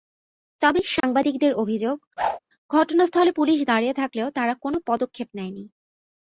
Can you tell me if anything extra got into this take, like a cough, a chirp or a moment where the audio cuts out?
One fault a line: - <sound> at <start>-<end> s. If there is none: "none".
- dropout at 1.0-1.0 s
- whoosh at 2.2-2.4 s